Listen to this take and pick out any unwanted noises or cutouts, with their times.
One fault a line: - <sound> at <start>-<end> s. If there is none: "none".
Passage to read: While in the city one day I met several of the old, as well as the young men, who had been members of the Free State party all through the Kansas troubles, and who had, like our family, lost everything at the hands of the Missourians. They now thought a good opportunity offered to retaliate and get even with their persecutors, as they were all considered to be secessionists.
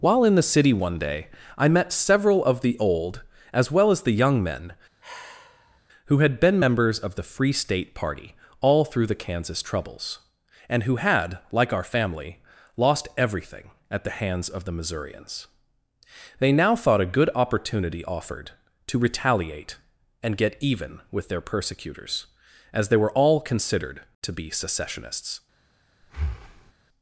- sigh at 5.0-5.8 s
- breath at 26.0-26.7 s